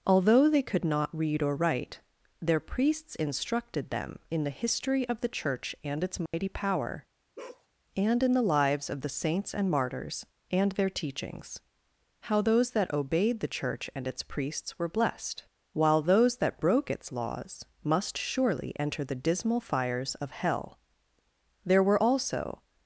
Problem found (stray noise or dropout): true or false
true